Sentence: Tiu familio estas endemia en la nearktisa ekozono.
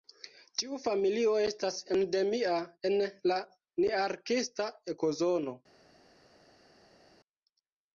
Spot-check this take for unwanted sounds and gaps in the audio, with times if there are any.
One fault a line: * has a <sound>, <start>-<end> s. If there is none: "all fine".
all fine